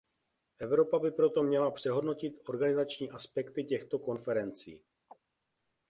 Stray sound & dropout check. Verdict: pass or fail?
fail